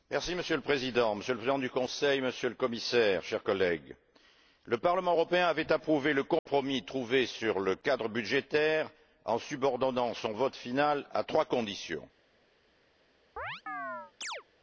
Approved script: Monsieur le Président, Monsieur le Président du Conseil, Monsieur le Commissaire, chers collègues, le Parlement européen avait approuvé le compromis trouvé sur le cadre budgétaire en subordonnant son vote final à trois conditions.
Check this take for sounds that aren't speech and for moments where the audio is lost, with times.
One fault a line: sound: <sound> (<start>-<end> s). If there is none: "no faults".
sound: dropout (6.4-6.5 s)
sound: chirp (13.4-14.4 s)